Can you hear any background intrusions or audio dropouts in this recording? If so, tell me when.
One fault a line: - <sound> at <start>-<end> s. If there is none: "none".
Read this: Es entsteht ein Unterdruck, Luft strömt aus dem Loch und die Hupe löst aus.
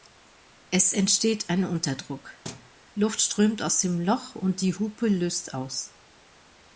- thud at 2.4-2.7 s